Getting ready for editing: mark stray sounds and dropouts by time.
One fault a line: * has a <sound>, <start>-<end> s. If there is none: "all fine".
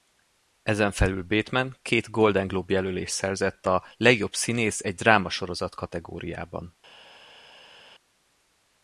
all fine